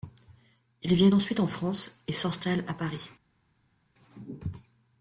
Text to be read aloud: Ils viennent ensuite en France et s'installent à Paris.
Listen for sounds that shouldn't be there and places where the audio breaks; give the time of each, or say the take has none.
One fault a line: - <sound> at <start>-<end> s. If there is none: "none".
none